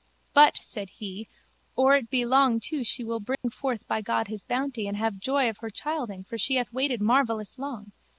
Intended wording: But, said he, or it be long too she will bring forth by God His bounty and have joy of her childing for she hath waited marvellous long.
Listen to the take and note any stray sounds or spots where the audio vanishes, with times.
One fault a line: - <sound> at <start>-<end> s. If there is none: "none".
- dropout at 3.3-3.4 s